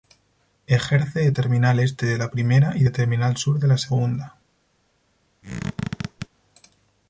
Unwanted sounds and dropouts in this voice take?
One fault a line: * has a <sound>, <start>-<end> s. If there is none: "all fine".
* has a squeak, 5.4-6.3 s